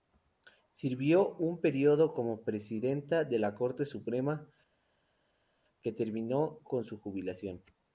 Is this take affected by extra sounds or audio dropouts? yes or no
no